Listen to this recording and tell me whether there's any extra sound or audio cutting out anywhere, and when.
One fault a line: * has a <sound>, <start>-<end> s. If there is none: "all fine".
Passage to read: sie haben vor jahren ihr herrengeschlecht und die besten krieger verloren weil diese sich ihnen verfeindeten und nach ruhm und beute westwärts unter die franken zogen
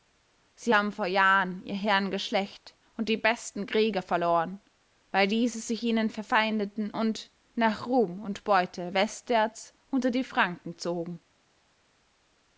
all fine